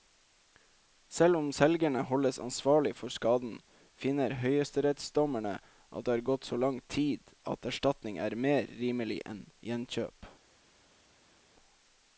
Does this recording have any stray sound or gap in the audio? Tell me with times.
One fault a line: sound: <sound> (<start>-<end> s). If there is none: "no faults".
no faults